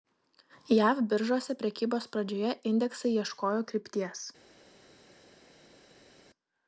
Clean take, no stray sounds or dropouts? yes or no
yes